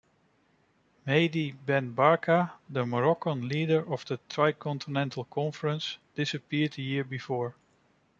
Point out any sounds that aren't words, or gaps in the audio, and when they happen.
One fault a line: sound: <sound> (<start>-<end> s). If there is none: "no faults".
no faults